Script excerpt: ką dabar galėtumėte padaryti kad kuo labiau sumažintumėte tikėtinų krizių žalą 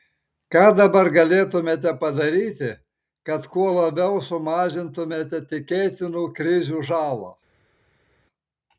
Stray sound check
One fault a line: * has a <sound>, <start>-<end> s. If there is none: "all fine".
all fine